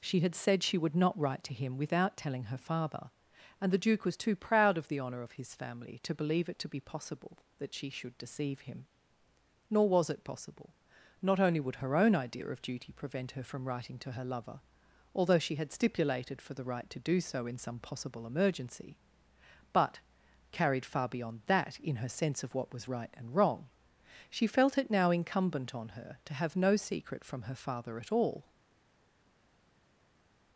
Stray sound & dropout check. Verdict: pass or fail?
pass